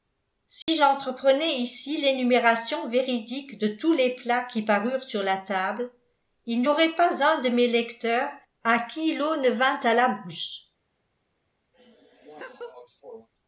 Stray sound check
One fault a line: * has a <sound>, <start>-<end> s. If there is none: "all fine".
* has a dropout, 0.6-0.7 s
* has a laugh, 11.7-13.3 s